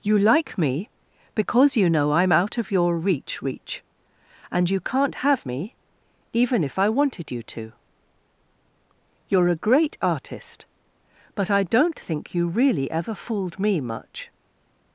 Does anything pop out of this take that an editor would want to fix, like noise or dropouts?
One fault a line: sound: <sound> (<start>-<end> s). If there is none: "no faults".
no faults